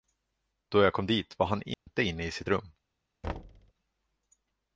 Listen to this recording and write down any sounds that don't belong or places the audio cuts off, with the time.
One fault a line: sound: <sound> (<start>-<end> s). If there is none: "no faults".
sound: dropout (1.7-1.9 s)
sound: thud (3.2-3.7 s)